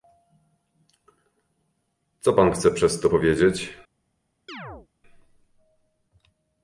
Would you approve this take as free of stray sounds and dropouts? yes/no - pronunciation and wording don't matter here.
no